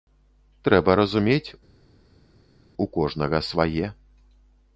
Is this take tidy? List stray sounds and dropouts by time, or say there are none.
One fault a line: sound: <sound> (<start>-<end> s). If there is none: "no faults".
no faults